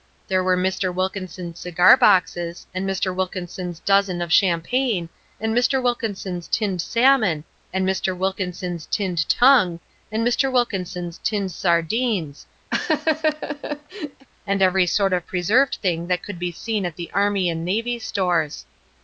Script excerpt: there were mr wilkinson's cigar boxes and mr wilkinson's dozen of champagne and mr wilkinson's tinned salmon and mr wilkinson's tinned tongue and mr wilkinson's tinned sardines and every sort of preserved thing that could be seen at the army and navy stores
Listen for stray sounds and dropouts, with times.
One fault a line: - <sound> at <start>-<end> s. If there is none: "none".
- laugh at 12.7-14.3 s